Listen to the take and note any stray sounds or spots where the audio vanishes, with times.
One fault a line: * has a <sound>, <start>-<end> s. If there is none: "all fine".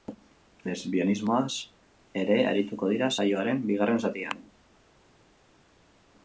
all fine